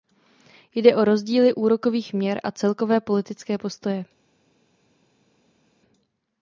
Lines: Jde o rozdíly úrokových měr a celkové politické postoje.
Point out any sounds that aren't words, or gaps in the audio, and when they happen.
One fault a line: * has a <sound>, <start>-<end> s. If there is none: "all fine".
all fine